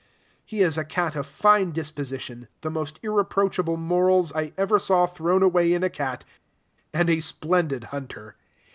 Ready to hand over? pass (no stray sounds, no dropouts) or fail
pass